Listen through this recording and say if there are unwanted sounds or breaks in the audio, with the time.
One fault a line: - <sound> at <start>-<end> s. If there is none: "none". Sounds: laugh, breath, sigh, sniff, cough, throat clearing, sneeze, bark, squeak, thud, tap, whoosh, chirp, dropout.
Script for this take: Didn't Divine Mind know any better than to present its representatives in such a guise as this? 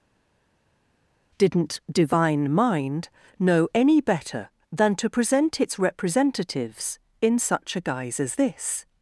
none